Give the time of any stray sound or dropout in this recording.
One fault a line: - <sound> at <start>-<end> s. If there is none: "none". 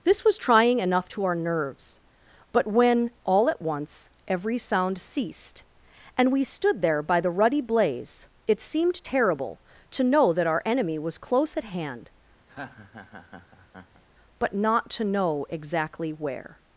- laugh at 12.5-14.0 s